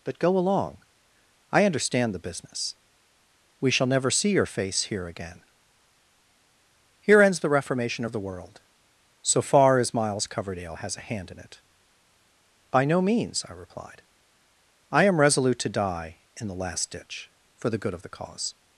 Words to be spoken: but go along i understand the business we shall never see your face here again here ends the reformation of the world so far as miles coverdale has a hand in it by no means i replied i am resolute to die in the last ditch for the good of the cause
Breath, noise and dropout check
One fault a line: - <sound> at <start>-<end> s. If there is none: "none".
none